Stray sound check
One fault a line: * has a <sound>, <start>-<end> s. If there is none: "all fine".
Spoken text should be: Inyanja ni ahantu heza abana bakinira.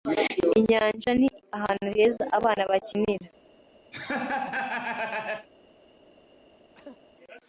* has a laugh, 3.9-5.5 s
* has a cough, 6.7-7.0 s